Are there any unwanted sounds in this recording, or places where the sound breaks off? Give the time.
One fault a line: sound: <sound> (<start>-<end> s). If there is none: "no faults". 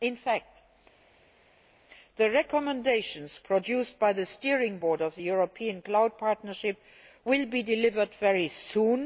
no faults